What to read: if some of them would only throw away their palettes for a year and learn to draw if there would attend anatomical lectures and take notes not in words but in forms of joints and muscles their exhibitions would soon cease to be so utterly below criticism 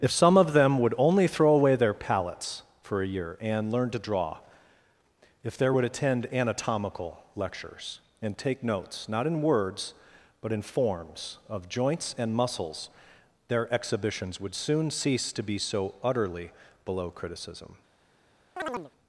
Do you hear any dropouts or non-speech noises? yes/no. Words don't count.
yes